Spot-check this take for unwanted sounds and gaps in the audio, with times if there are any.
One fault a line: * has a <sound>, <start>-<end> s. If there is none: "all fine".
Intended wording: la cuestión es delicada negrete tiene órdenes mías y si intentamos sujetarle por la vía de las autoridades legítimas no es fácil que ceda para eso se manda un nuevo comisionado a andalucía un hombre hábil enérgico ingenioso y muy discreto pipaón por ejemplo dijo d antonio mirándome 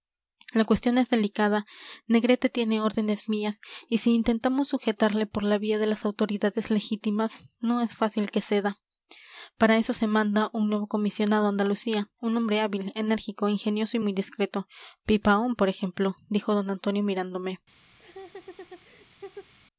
* has a laugh, 18.0-19.5 s